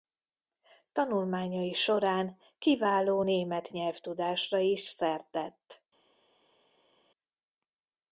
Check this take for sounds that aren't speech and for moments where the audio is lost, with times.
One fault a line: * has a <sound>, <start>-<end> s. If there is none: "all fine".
all fine